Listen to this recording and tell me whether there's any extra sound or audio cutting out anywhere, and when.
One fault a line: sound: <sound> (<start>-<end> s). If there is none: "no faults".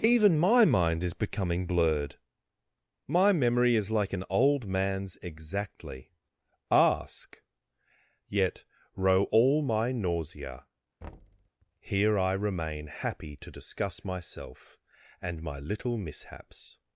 sound: thud (11.0-11.5 s)